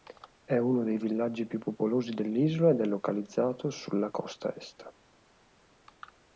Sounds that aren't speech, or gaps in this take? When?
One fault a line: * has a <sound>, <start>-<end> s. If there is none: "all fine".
all fine